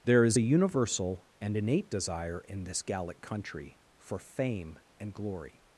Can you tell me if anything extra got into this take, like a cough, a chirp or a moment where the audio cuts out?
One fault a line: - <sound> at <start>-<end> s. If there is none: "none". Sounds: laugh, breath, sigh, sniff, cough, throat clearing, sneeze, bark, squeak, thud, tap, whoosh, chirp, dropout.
none